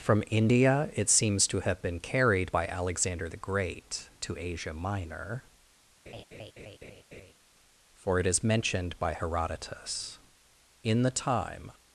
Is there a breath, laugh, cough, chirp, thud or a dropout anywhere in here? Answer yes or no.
yes